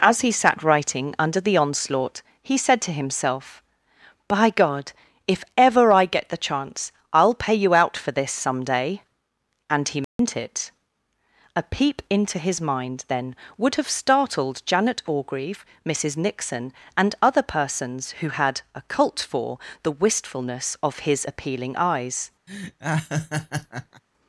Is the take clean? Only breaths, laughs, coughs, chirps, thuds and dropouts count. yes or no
no